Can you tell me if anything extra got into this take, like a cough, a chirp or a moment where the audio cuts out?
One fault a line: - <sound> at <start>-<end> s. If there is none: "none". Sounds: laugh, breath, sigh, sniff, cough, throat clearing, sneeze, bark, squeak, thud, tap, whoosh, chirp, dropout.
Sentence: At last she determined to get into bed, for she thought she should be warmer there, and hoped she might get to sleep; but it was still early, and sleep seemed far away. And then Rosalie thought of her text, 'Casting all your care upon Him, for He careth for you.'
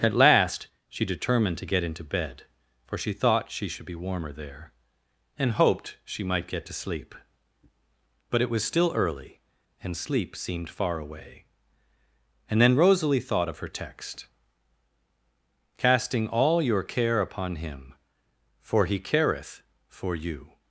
none